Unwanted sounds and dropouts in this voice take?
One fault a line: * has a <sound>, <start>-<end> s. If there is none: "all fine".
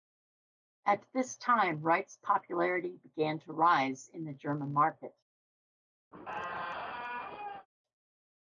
* has a squeak, 6.1-7.7 s